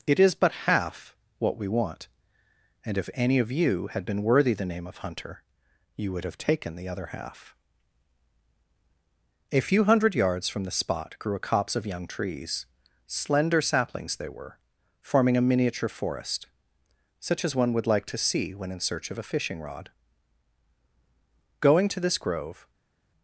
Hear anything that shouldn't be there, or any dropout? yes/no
no